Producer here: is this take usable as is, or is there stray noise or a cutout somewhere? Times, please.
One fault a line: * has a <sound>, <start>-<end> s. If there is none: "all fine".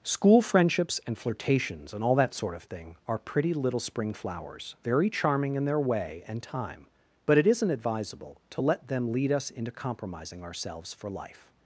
all fine